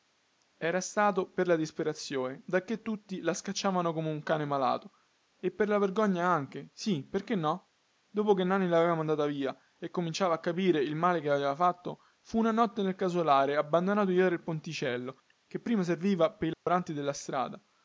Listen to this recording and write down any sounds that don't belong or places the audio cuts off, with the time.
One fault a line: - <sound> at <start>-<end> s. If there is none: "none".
- dropout at 16.5-16.7 s